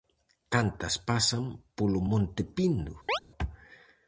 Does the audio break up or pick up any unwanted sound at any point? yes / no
yes